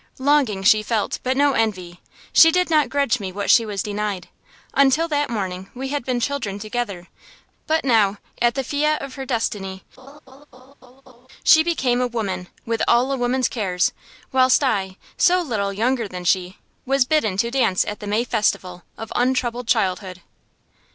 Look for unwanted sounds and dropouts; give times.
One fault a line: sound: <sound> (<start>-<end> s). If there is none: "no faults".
sound: laugh (10.0-11.3 s)